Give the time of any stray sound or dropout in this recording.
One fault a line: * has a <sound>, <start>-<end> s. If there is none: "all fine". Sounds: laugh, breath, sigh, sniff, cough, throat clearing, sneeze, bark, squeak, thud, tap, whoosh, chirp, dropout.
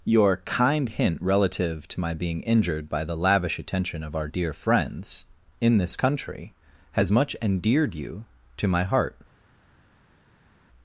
all fine